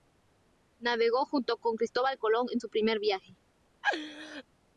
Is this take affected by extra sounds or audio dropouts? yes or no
yes